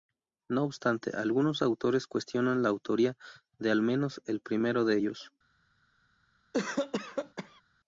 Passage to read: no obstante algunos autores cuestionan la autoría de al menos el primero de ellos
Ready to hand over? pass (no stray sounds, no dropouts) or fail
fail